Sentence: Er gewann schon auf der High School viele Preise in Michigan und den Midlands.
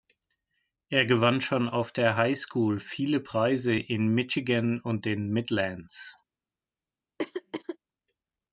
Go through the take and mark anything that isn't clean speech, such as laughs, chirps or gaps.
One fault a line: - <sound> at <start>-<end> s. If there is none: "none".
- throat clearing at 7.2-7.8 s